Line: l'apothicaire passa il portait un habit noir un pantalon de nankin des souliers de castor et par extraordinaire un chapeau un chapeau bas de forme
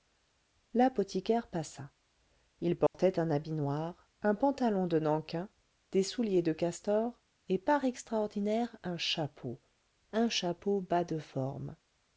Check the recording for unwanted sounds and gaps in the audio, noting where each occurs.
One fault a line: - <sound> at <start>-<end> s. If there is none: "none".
- dropout at 2.9-2.9 s